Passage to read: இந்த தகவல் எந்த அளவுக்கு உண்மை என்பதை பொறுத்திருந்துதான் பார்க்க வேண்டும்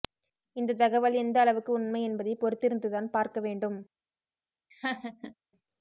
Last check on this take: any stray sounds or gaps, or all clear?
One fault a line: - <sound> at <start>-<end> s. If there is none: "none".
- laugh at 4.7-5.4 s